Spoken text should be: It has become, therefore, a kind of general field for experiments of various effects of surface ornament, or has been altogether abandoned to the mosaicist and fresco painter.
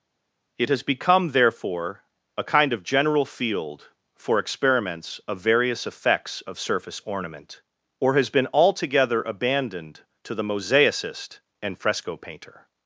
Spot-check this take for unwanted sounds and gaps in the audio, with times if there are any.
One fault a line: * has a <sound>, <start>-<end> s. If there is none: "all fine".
all fine